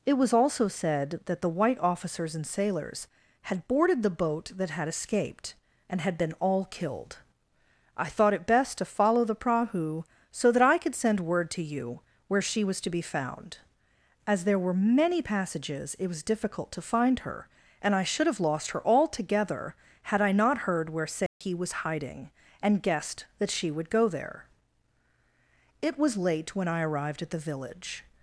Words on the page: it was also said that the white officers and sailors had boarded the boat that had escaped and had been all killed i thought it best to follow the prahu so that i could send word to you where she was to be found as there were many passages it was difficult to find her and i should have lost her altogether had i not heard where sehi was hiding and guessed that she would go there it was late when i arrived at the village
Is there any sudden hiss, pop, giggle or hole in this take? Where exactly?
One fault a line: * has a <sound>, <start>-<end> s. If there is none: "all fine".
* has a dropout, 21.3-21.4 s